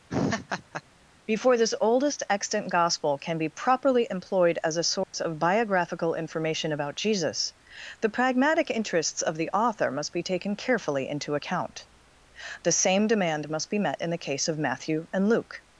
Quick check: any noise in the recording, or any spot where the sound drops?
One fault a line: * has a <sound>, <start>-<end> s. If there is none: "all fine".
* has a laugh, 0.1-0.8 s
* has a dropout, 5.0-5.1 s